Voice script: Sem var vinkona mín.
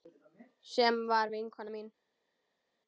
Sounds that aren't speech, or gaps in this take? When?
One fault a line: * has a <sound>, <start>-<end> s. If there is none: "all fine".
all fine